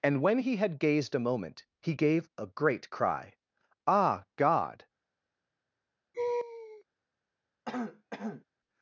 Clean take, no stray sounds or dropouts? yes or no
no